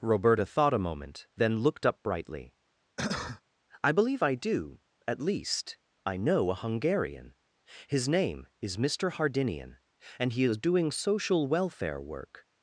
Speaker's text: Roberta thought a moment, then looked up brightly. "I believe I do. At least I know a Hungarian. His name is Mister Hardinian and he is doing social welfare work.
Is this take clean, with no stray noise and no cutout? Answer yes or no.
no